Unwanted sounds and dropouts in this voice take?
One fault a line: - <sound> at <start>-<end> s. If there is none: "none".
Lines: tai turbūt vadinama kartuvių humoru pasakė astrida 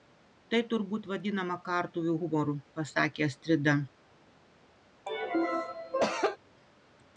- cough at 5.1-6.4 s